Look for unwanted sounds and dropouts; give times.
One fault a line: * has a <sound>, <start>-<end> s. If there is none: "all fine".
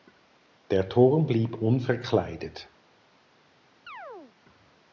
* has a chirp, 3.9-4.4 s